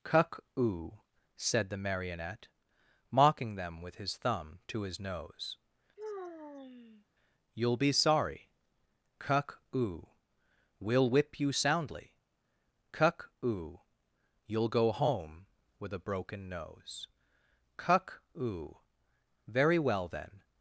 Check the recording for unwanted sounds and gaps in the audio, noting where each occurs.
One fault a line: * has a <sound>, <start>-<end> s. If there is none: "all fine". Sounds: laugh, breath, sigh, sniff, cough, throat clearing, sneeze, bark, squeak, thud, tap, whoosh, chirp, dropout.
* has a sigh, 6.0-7.0 s